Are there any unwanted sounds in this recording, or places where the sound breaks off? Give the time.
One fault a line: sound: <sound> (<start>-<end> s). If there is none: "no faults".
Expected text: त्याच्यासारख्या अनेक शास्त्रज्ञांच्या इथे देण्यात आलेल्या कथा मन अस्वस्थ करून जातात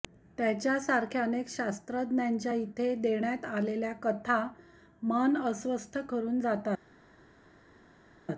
no faults